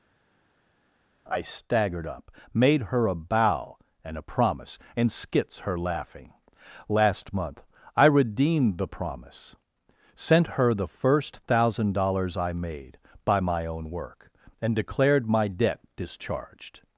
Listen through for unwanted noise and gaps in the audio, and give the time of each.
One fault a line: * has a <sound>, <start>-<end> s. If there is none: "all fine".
all fine